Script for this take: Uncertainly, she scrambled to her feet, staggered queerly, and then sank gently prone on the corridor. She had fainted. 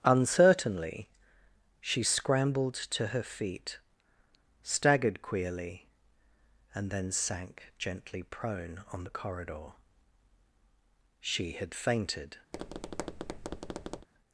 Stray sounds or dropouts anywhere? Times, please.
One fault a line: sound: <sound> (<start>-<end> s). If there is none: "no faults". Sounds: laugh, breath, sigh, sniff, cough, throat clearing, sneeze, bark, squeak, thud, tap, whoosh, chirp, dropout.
sound: tap (12.5-14.1 s)